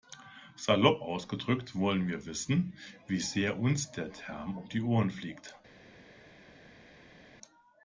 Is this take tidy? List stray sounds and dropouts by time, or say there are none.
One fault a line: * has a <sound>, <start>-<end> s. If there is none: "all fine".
all fine